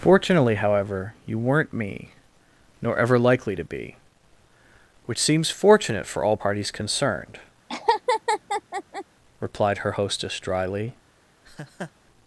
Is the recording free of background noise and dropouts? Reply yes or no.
no